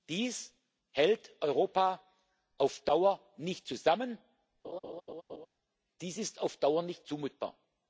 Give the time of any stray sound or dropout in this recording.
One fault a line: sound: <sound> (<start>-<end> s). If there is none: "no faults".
sound: laugh (4.6-5.5 s)